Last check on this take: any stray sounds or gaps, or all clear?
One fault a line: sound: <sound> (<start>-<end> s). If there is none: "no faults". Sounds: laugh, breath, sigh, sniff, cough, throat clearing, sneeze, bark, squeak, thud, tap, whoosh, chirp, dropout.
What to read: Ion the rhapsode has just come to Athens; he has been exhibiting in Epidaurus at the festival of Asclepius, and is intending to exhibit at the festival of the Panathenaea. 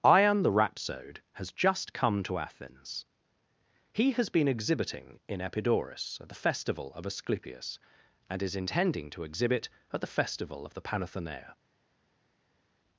no faults